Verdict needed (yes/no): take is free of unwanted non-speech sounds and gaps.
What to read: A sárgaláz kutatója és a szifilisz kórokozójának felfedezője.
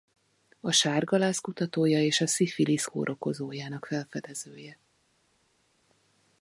yes